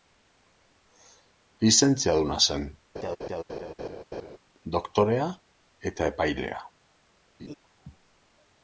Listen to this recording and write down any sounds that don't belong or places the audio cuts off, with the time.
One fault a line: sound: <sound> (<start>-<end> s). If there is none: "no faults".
sound: laugh (2.9-4.4 s)
sound: laugh (7.4-7.5 s)